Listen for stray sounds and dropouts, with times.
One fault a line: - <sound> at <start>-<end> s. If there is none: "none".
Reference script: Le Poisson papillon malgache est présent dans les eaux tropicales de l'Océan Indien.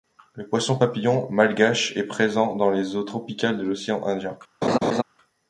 - laugh at 4.6-5.0 s